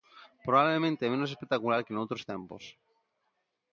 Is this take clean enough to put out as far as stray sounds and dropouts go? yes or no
yes